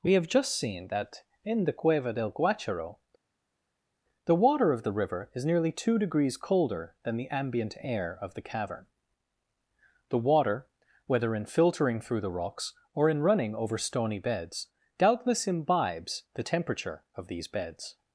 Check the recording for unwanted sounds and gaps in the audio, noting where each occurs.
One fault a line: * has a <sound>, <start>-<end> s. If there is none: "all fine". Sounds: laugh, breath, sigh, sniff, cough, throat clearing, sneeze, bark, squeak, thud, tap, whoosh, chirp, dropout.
all fine